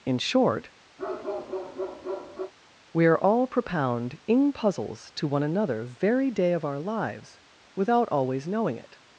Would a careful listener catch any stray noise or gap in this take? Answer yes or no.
yes